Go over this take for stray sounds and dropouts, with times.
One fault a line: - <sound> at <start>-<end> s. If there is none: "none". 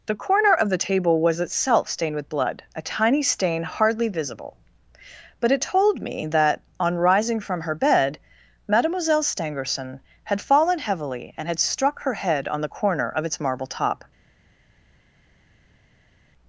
none